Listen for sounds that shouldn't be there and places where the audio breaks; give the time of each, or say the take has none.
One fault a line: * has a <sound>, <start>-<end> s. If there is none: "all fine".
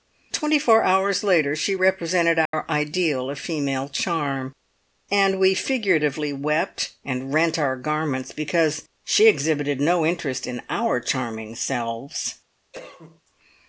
* has a dropout, 2.5-2.5 s
* has a cough, 12.7-13.2 s